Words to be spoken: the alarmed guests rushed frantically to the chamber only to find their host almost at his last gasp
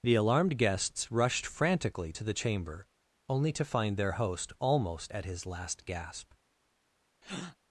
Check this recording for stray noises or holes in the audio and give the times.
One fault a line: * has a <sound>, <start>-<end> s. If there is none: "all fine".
* has a breath, 7.2-7.6 s